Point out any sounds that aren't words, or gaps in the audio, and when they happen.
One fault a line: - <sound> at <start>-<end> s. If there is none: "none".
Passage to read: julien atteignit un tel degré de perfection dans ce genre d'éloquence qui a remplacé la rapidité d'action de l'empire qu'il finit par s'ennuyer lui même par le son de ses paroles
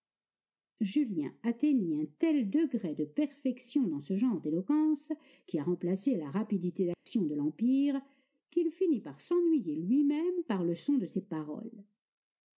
- dropout at 6.9-7.1 s